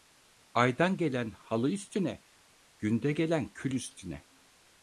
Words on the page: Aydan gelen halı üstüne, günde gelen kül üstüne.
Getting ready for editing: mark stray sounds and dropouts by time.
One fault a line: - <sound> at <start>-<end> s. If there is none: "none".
none